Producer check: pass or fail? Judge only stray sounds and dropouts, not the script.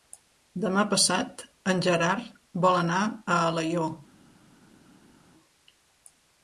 pass